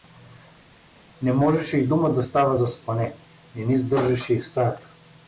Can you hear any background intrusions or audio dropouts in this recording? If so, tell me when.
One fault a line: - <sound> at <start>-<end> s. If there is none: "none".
none